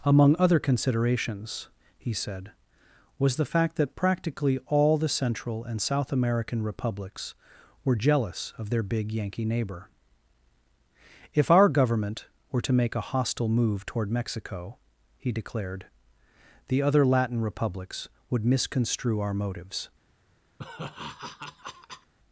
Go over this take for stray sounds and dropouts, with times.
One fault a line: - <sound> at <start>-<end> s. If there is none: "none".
- laugh at 20.6-22.1 s